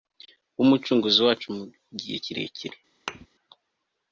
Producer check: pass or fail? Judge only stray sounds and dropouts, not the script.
fail